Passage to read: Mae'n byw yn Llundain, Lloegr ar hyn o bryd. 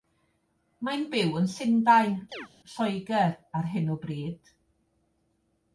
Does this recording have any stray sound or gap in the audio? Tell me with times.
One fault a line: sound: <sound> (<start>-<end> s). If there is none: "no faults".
sound: chirp (2.3-2.5 s)